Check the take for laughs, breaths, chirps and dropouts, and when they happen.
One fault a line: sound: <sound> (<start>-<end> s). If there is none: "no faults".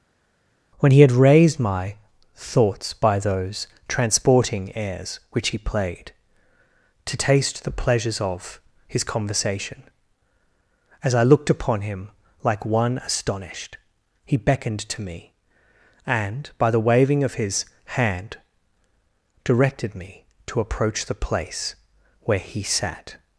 no faults